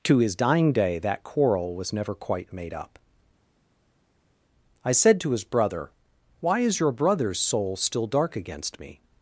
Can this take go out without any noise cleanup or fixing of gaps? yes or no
yes